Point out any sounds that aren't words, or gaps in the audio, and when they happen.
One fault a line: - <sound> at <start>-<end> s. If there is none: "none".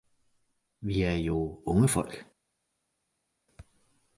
none